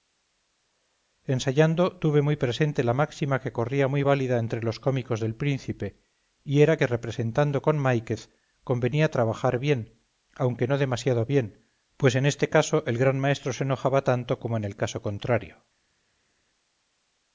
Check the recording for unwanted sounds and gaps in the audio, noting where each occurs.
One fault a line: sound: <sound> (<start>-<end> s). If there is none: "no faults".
no faults